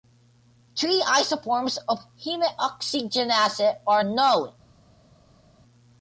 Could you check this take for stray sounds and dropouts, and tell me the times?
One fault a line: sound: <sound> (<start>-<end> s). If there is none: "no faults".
no faults